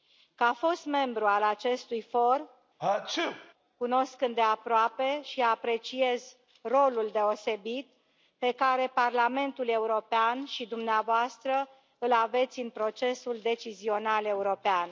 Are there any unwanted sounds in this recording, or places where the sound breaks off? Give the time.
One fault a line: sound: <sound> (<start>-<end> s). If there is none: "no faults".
sound: sneeze (2.8-3.5 s)